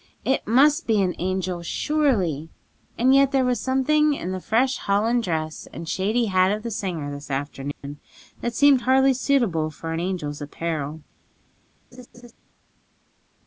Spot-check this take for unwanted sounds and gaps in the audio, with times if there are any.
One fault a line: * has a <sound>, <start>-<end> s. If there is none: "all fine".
* has a dropout, 7.7-7.8 s
* has a laugh, 11.9-12.3 s